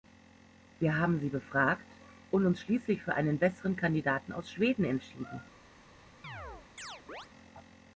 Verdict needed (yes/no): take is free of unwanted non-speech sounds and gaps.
no